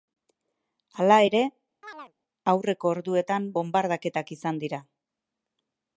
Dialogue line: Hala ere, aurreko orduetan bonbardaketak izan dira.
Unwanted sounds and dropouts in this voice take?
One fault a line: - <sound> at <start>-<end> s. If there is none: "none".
- chirp at 1.8-2.1 s